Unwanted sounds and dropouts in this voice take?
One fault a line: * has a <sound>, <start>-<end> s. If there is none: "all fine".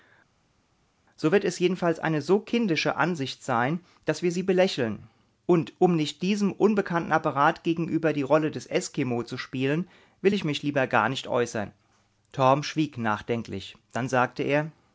all fine